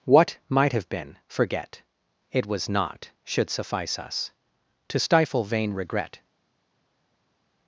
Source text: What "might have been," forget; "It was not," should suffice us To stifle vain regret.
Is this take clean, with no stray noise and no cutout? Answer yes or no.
yes